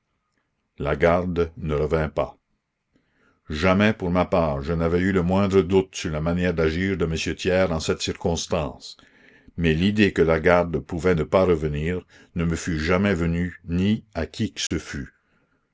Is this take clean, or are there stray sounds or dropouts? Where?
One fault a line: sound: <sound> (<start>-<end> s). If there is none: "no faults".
sound: dropout (14.7-14.7 s)